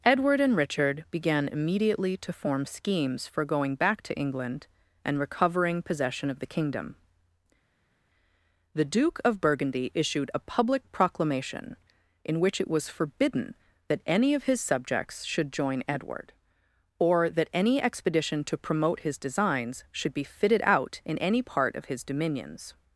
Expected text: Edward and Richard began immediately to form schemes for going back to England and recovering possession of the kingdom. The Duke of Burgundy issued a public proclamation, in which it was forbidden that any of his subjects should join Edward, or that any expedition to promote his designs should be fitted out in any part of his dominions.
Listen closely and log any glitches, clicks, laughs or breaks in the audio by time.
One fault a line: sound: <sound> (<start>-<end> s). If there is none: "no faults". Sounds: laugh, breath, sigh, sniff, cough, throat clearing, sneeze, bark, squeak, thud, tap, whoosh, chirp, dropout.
no faults